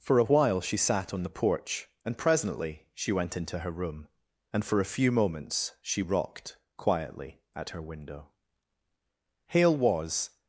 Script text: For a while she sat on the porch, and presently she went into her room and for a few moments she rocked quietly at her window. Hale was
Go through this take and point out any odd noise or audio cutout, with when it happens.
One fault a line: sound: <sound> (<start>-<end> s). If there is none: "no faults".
no faults